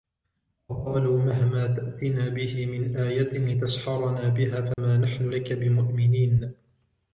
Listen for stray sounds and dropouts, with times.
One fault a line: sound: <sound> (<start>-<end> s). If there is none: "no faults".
sound: dropout (4.7-4.8 s)